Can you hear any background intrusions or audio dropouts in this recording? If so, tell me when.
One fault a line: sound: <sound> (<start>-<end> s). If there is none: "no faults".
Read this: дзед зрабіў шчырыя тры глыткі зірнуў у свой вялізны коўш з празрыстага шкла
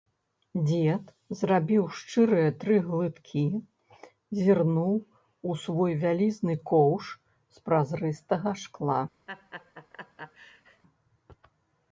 sound: laugh (9.3-10.8 s)